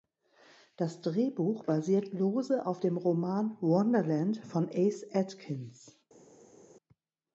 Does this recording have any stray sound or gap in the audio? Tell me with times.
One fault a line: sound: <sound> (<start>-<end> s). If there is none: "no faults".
no faults